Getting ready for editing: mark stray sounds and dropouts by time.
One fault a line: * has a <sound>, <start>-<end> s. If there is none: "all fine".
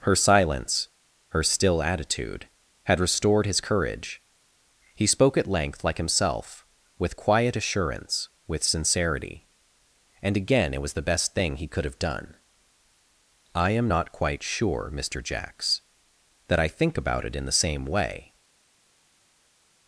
all fine